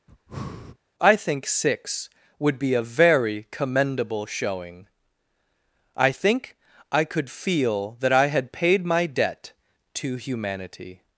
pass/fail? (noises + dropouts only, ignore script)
fail